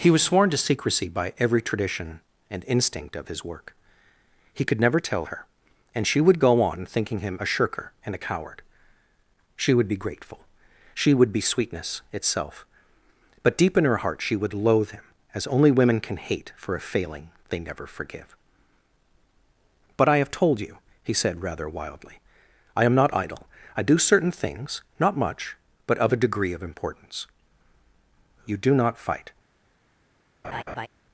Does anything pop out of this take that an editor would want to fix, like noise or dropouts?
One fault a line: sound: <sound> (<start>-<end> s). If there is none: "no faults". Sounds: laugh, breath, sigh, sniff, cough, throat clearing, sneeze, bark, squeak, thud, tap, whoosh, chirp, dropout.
sound: laugh (30.4-30.9 s)